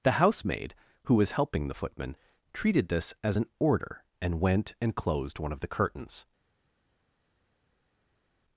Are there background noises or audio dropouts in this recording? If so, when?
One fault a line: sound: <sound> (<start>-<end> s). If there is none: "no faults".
no faults